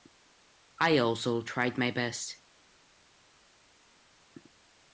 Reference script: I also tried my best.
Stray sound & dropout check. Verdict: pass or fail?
pass